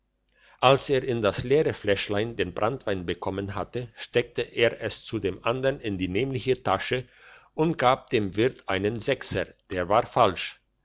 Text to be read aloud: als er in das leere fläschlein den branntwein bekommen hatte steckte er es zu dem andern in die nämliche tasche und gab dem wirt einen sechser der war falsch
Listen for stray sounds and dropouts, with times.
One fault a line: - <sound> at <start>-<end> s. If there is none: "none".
none